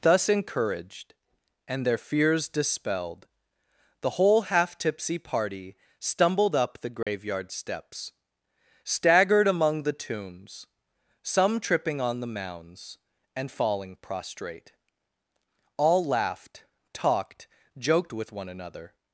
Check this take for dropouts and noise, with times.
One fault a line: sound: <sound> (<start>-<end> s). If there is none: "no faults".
sound: dropout (7.0-7.1 s)